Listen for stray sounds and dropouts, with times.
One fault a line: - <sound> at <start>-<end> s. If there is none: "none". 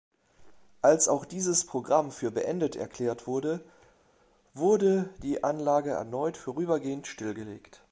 none